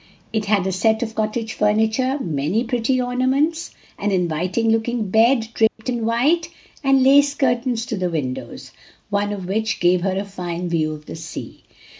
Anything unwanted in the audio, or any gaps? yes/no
yes